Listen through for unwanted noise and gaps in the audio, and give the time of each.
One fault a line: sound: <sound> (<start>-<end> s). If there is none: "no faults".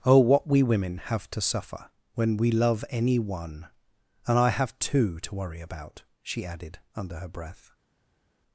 no faults